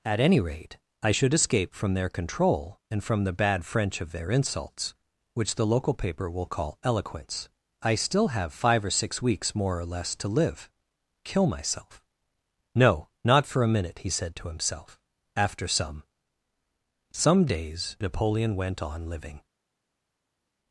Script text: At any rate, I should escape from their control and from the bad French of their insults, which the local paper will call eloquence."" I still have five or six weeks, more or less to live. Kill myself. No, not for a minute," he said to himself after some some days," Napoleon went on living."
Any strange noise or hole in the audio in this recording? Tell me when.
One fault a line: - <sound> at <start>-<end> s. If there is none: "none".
none